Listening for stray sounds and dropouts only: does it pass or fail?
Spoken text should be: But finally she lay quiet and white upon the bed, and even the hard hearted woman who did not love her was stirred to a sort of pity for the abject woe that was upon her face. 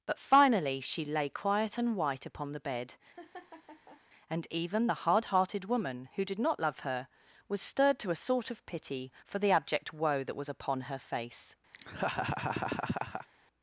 fail